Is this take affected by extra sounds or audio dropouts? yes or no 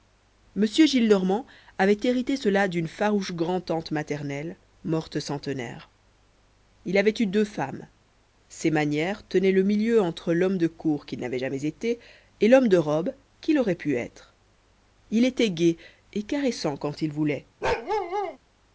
yes